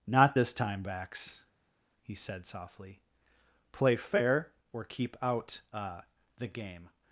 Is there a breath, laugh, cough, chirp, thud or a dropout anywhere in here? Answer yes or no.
no